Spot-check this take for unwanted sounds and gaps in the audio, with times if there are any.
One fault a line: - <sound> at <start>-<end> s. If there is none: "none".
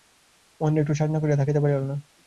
none